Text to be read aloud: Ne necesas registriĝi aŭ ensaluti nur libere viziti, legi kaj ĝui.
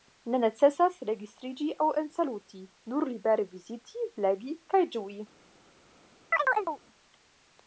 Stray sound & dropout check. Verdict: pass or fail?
fail